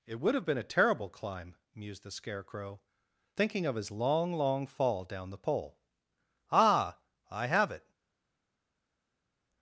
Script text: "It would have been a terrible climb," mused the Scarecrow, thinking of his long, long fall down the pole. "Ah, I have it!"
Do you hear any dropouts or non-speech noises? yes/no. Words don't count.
no